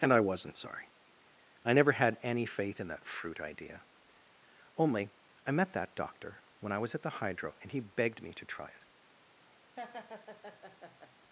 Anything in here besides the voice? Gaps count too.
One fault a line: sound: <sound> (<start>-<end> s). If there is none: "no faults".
sound: laugh (9.7-11.1 s)